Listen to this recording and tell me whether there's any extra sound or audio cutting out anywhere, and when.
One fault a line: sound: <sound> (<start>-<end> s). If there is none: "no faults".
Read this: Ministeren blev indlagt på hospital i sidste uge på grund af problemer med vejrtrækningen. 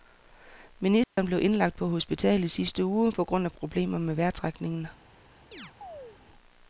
sound: dropout (1.0-1.2 s)
sound: chirp (5.5-6.2 s)